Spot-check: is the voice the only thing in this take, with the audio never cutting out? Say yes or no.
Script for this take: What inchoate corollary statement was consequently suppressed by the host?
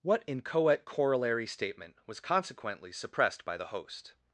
yes